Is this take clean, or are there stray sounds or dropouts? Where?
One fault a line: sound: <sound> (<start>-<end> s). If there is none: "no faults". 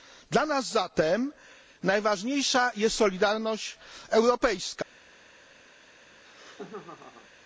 sound: laugh (6.1-7.3 s)